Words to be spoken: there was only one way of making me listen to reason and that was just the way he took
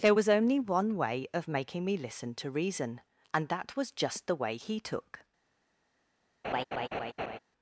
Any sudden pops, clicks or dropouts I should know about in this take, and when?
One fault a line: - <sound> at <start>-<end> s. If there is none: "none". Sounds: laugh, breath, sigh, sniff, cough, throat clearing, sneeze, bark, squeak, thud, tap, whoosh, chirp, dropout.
- laugh at 6.4-7.4 s